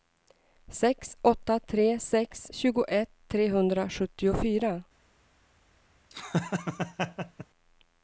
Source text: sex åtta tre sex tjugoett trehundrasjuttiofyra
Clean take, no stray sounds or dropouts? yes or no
no